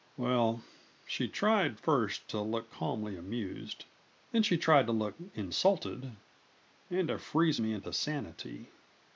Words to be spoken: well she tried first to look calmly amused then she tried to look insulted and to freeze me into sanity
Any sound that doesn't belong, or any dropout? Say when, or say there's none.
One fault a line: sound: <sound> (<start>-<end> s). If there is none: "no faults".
no faults